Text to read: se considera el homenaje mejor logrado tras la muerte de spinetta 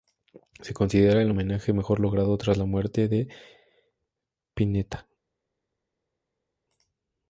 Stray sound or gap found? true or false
false